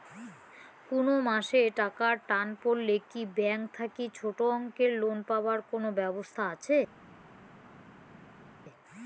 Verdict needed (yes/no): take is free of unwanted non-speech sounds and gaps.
yes